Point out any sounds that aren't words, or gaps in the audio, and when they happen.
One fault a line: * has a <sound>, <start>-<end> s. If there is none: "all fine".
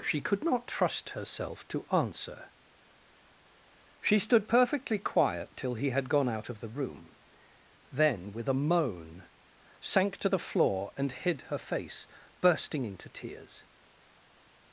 all fine